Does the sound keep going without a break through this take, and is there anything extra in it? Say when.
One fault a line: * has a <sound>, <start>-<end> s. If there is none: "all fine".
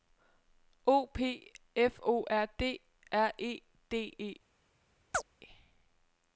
* has a chirp, 5.1-5.2 s